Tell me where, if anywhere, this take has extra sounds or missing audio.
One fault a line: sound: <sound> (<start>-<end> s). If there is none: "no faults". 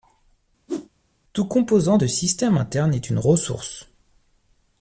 sound: whoosh (0.7-0.9 s)